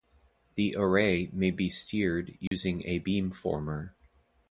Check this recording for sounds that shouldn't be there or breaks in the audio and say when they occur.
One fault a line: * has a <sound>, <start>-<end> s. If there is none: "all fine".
* has a dropout, 2.5-2.5 s